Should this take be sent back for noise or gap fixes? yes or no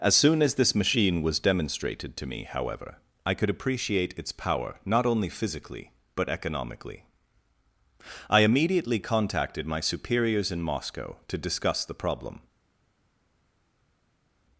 no